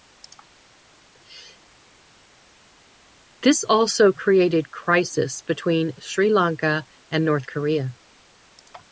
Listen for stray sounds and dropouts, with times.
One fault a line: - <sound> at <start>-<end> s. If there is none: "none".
none